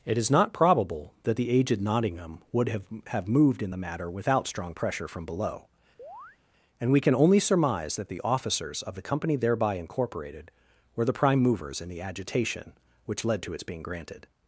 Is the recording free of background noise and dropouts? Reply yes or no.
no